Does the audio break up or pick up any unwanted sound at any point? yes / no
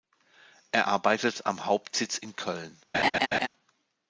yes